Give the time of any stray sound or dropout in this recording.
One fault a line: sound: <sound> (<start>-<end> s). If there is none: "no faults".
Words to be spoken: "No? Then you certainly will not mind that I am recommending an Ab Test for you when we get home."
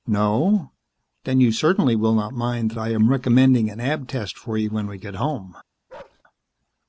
sound: bark (5.9-6.2 s)